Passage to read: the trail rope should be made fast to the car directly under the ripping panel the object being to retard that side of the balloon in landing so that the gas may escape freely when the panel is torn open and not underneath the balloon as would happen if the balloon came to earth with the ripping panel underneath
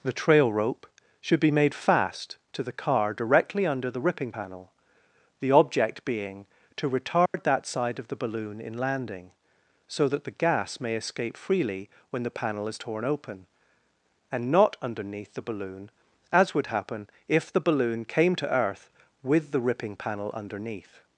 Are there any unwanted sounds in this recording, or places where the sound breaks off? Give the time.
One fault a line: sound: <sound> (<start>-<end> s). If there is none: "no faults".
sound: dropout (7.3-7.3 s)